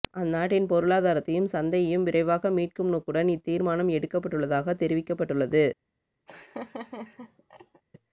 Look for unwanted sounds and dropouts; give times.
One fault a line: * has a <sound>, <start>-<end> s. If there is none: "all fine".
* has a laugh, 6.3-7.8 s